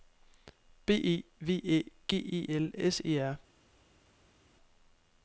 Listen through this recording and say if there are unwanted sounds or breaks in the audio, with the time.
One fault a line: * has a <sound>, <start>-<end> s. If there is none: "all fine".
all fine